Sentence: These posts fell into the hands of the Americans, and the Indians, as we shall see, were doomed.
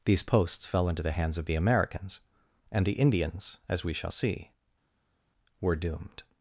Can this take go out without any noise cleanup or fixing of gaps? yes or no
yes